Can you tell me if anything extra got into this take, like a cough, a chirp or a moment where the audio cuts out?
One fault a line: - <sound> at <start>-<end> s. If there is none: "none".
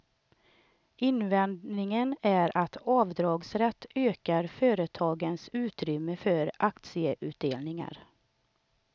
none